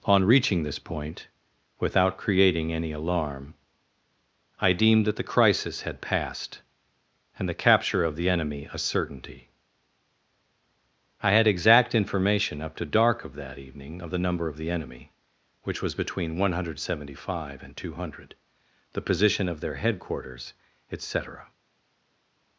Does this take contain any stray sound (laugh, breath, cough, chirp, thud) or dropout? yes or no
no